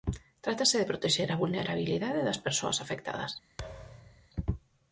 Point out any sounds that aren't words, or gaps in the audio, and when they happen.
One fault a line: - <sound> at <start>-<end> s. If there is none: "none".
- thud at 3.6-4.3 s